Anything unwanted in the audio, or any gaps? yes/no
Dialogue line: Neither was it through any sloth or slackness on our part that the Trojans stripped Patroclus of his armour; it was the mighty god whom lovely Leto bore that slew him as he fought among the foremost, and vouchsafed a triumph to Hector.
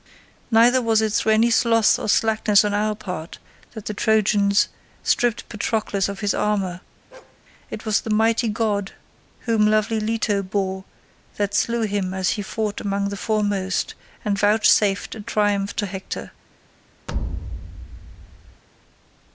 yes